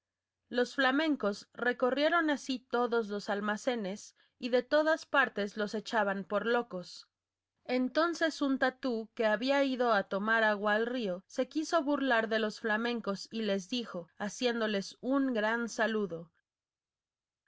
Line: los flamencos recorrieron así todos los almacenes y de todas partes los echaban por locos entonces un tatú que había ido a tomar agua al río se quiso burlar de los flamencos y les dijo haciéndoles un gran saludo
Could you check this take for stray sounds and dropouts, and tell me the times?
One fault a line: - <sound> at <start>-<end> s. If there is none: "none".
none